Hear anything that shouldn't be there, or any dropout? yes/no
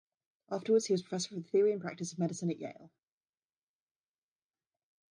no